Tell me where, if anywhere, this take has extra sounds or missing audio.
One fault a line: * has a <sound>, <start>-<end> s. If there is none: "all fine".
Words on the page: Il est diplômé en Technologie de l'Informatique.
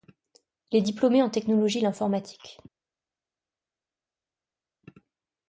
all fine